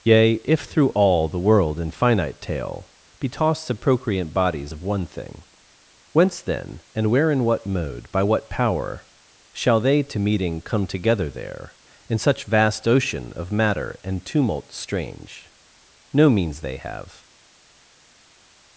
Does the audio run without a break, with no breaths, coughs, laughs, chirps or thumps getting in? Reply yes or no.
yes